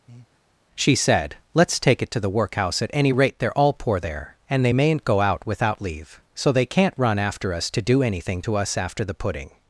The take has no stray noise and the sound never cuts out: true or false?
false